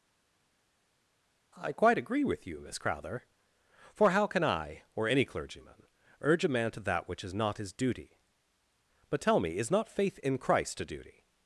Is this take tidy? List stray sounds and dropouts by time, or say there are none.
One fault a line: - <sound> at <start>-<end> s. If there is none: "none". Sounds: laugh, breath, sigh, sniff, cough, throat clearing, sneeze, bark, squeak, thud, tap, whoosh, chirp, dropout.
none